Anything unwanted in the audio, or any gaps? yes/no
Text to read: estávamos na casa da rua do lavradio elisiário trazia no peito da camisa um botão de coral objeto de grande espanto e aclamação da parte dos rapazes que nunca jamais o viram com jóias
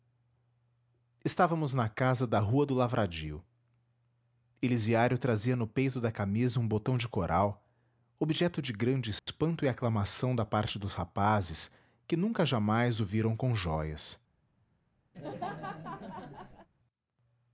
yes